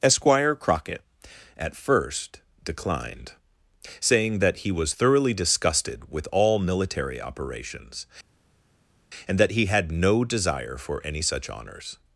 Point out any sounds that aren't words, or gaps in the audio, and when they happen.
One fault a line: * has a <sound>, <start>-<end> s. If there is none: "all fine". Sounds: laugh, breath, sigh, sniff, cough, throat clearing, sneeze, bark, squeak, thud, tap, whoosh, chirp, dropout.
all fine